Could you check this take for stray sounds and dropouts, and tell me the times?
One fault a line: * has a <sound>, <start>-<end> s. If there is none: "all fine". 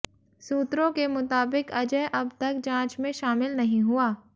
all fine